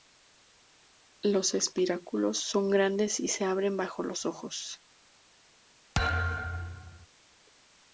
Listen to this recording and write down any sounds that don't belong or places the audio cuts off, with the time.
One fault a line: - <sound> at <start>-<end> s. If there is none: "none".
- thud at 5.9-7.1 s